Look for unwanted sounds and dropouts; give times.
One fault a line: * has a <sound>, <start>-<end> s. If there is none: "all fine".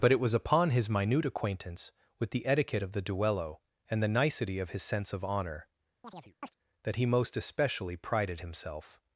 * has a chirp, 6.0-6.5 s